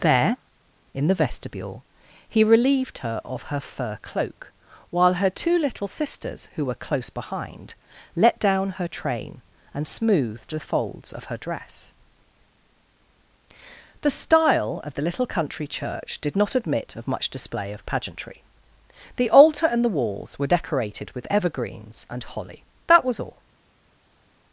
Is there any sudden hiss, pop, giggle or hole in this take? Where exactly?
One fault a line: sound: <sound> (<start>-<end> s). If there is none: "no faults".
no faults